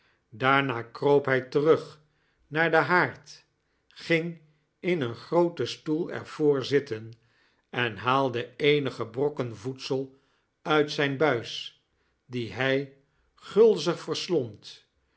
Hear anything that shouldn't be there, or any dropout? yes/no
no